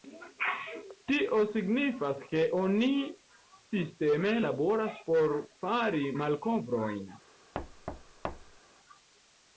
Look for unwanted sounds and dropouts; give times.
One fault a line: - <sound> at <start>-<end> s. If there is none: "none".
- thud at 7.5-8.6 s